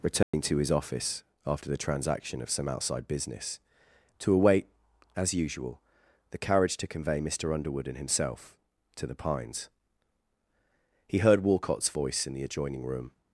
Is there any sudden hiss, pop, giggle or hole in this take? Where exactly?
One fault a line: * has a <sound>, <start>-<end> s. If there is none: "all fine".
* has a dropout, 0.2-0.3 s